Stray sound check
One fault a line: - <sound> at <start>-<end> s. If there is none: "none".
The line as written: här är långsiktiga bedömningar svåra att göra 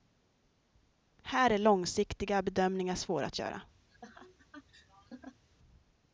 - laugh at 3.9-5.4 s